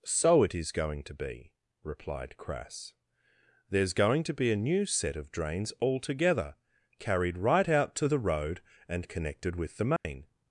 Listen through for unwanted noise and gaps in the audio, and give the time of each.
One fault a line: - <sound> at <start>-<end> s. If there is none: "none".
- dropout at 10.0-10.1 s